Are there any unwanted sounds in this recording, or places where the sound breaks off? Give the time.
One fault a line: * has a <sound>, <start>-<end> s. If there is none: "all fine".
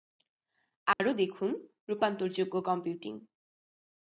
* has a dropout, 0.9-1.0 s